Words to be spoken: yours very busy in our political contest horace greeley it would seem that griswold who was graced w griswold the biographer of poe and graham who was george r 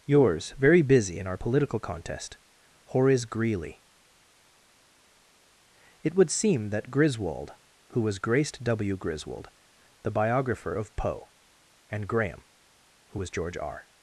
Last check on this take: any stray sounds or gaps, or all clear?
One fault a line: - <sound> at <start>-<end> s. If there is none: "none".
none